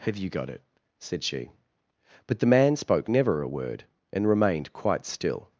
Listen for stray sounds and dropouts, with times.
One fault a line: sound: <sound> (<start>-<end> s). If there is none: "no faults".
no faults